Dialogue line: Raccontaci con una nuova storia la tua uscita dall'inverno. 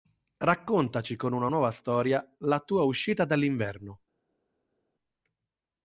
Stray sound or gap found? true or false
false